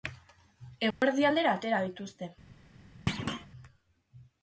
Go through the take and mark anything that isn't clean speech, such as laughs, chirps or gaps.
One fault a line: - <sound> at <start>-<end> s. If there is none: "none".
- dropout at 0.9-1.0 s
- thud at 3.1-3.5 s